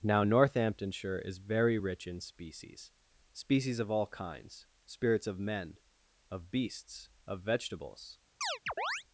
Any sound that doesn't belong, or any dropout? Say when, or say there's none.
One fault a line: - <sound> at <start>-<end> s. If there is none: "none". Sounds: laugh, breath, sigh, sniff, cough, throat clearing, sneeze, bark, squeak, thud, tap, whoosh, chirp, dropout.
- chirp at 8.4-9.0 s